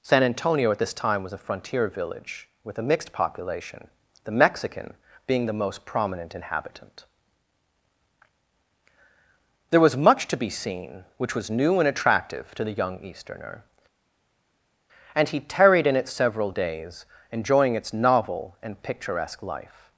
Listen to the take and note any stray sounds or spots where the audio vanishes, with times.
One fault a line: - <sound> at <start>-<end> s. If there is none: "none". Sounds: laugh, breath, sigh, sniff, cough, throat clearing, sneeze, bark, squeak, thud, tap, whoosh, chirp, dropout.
none